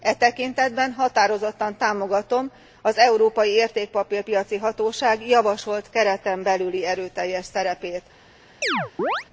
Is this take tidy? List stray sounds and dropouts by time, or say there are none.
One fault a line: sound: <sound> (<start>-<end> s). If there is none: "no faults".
sound: chirp (8.6-9.2 s)